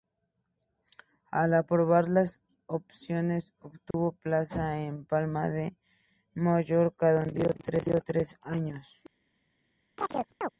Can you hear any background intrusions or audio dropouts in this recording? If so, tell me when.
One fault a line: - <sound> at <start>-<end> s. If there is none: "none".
- dropout at 3.9-3.9 s
- chirp at 10.0-10.5 s